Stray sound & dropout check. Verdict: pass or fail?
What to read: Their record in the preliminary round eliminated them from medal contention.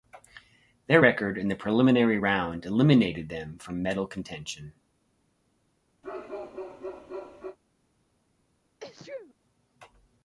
fail